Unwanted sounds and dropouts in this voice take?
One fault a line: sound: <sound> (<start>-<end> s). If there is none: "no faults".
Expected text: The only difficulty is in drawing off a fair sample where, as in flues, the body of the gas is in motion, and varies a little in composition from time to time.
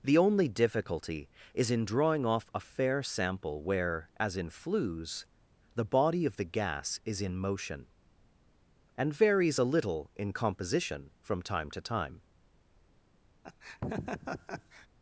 sound: laugh (13.4-14.9 s)